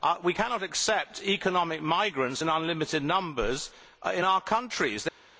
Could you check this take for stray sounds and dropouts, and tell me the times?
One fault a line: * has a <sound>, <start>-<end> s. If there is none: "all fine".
all fine